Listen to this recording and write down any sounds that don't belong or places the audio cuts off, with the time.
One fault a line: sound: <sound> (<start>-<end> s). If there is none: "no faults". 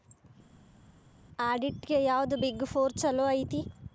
no faults